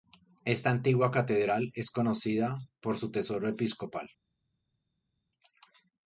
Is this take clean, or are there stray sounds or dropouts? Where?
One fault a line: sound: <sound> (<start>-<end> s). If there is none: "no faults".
no faults